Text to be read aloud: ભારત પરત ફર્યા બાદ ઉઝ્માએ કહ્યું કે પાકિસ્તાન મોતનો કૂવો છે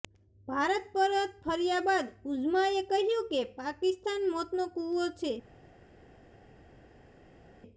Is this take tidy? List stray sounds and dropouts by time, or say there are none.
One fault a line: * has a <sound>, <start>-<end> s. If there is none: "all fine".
all fine